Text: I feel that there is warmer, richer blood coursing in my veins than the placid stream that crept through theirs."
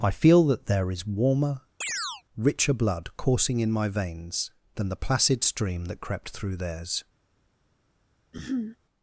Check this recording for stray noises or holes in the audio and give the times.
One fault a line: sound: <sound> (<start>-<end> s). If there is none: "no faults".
sound: chirp (1.8-2.2 s)
sound: throat clearing (8.3-8.8 s)